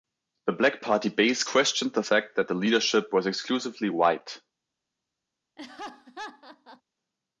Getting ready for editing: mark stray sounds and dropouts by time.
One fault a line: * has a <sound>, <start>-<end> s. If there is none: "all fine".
* has a laugh, 5.6-6.8 s